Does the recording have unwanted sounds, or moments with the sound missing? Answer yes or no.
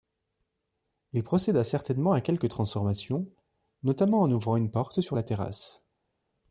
no